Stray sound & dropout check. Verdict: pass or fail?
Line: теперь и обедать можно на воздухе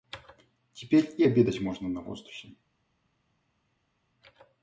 pass